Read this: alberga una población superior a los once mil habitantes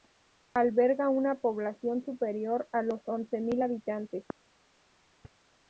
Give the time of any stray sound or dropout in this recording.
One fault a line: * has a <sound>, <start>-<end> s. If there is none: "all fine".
all fine